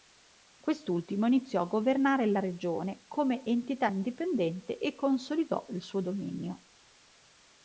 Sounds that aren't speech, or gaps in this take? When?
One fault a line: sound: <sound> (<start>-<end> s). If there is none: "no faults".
no faults